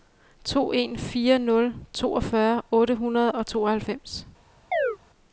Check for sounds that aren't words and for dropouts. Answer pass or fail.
fail